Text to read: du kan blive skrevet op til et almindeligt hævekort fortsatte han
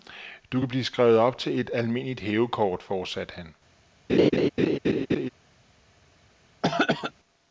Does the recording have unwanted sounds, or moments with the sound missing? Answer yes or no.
yes